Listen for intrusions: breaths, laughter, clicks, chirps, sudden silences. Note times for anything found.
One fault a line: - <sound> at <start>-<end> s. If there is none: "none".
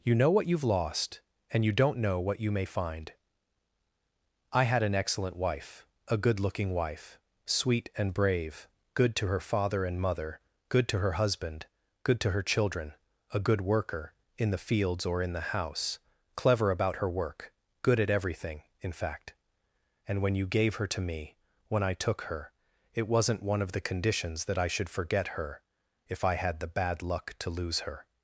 none